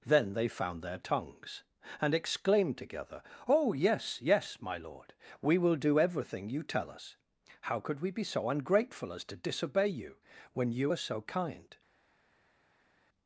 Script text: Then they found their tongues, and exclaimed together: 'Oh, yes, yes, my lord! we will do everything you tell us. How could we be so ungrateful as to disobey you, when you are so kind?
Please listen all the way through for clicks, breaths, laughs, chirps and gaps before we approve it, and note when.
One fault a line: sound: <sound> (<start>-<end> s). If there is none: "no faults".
no faults